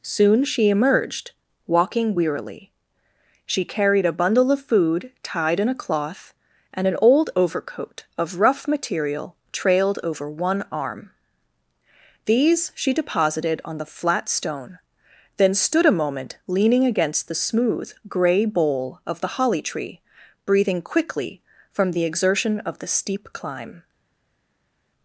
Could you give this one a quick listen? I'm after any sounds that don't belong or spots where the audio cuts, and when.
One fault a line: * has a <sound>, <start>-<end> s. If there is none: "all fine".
all fine